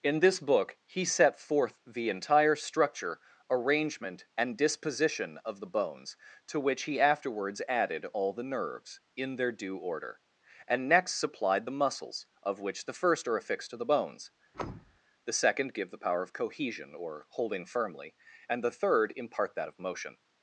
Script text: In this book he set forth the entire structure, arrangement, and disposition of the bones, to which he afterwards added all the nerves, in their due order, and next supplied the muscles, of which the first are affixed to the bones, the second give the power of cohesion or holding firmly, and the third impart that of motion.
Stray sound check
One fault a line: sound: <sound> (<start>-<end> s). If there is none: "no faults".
sound: thud (14.5-15.0 s)